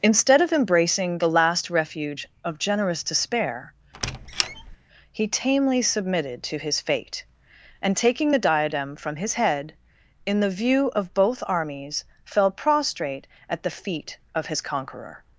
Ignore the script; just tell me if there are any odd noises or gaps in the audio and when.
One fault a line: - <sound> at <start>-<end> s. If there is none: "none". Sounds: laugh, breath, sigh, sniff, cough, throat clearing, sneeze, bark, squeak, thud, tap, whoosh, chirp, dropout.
- squeak at 3.9-4.8 s